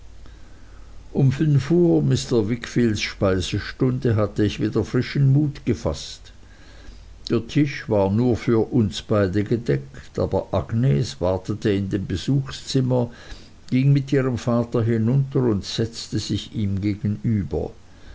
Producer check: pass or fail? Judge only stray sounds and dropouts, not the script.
pass